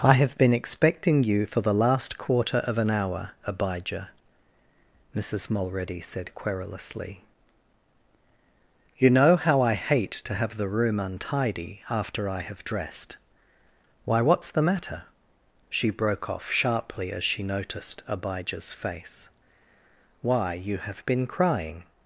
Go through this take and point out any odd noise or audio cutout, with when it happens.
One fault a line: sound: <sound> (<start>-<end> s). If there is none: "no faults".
no faults